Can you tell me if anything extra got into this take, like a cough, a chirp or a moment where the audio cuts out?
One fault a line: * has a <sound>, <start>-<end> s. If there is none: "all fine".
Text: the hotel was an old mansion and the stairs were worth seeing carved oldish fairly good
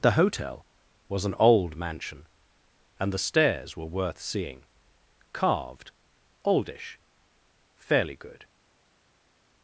all fine